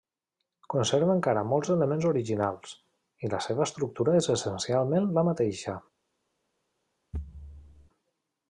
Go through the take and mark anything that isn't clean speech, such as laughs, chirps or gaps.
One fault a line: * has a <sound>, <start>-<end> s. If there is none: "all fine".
* has a thud, 7.1-7.9 s